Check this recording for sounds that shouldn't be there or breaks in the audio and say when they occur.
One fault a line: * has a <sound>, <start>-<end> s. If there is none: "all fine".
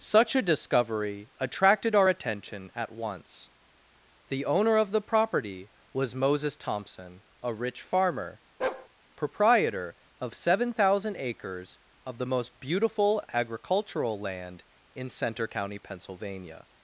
* has a bark, 8.6-8.9 s